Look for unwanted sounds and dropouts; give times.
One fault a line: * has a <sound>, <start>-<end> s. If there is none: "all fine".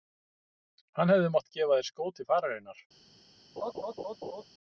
* has a laugh, 3.6-4.4 s